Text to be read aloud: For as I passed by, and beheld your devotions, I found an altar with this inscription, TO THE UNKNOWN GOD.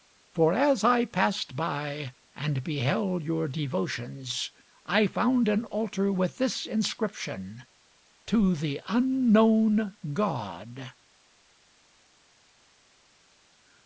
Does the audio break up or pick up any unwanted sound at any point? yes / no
no